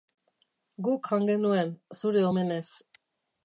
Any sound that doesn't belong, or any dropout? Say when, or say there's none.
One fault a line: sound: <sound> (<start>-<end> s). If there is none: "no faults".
no faults